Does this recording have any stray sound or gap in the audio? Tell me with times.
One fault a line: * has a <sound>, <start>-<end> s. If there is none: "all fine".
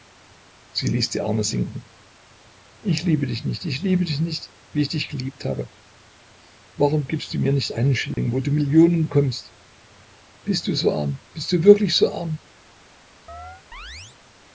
* has a dropout, 8.1-8.2 s
* has a chirp, 13.3-14.2 s